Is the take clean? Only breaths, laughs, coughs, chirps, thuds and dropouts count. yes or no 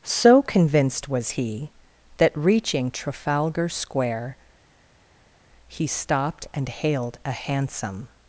yes